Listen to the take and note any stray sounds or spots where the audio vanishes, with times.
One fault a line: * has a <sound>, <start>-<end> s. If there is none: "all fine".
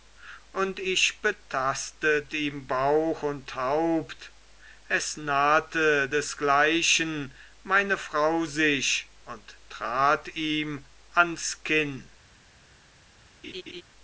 * has a laugh, 13.4-13.8 s